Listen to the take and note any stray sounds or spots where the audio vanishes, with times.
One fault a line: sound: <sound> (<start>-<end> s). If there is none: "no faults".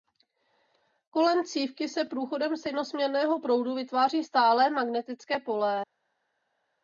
no faults